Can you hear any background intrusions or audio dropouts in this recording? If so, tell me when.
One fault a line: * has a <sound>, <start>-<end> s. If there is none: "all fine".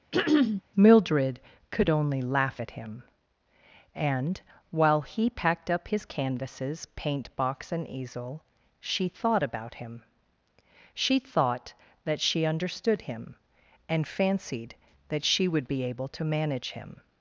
* has a throat clearing, 0.1-0.6 s